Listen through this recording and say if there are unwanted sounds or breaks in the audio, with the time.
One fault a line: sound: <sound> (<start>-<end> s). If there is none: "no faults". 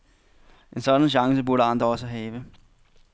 no faults